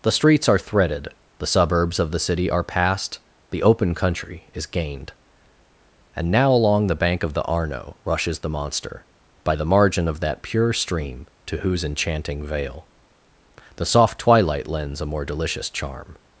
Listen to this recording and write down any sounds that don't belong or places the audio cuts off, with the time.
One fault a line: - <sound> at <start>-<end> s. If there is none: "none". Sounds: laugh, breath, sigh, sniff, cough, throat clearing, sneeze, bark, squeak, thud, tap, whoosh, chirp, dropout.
none